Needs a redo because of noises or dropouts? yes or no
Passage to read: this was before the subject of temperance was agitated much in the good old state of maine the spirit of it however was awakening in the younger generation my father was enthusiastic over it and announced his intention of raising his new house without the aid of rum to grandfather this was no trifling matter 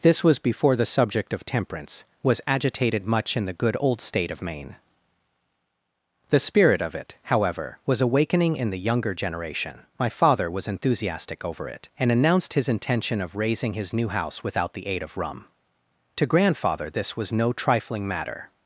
no